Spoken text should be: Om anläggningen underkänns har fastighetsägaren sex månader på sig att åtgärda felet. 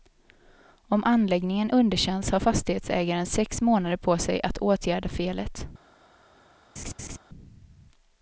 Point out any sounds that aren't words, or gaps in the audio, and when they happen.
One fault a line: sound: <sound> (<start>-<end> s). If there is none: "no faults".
sound: laugh (6.8-7.2 s)